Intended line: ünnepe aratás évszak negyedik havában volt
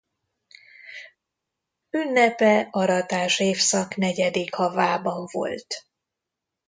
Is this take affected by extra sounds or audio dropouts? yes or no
no